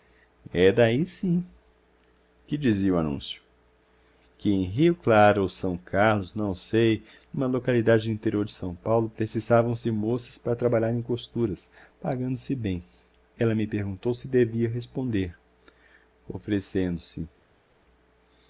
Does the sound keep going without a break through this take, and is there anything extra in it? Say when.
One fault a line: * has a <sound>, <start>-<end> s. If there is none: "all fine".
all fine